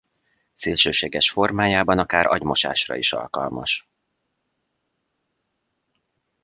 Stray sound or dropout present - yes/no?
no